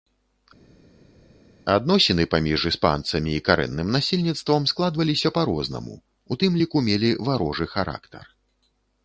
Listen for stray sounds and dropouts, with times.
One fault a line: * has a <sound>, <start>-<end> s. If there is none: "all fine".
all fine